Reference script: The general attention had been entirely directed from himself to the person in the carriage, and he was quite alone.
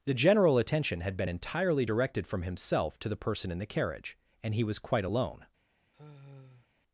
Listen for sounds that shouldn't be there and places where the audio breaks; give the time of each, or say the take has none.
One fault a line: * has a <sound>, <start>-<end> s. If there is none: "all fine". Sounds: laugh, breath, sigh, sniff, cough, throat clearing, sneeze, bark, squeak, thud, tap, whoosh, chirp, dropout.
* has a sigh, 5.9-6.7 s